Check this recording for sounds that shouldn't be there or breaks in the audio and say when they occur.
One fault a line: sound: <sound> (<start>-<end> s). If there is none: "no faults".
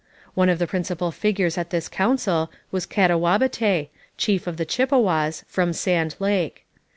no faults